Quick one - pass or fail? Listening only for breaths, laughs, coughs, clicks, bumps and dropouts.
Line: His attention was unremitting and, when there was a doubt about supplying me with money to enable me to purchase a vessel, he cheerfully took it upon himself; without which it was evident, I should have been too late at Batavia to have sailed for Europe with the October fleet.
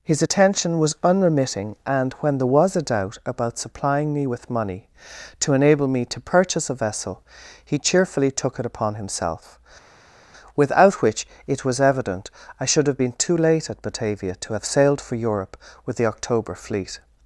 pass